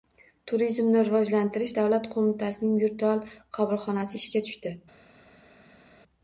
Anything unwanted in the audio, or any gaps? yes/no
no